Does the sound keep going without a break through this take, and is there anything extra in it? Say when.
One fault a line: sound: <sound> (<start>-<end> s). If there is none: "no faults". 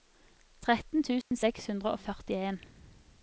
sound: dropout (1.2-1.3 s)